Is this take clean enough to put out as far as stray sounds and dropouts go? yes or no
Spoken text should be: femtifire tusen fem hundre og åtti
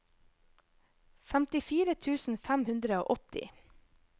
yes